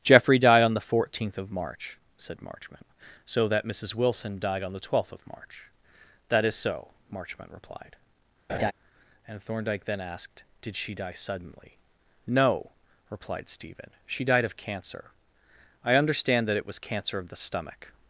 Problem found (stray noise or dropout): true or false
true